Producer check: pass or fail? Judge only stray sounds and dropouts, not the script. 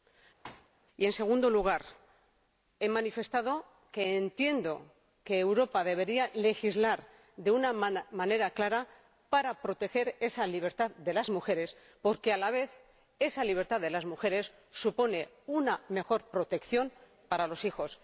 fail